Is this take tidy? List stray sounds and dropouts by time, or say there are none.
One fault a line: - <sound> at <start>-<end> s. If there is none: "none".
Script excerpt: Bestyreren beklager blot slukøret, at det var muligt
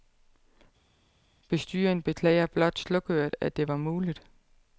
none